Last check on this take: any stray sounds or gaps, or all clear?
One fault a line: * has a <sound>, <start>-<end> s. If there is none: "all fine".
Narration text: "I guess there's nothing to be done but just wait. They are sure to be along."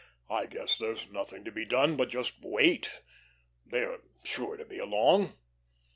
all fine